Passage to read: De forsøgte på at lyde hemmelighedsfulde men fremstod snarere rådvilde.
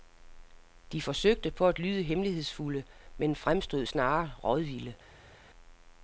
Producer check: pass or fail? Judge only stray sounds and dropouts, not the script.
pass